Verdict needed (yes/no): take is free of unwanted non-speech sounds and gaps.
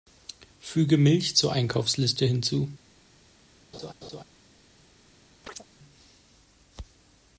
no